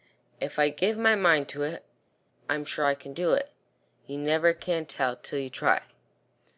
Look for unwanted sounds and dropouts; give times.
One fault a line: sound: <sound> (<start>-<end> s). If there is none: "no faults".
no faults